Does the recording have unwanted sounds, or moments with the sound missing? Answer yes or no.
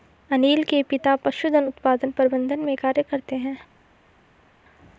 no